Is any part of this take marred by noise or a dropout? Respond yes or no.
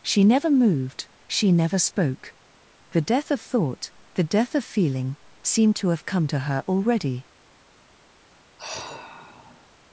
yes